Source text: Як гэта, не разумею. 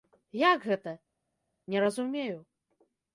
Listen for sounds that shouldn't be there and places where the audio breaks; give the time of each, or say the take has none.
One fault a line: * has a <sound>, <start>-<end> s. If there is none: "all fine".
all fine